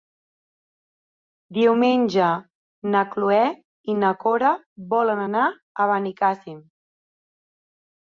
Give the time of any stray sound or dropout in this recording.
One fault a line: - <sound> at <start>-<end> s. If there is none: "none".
none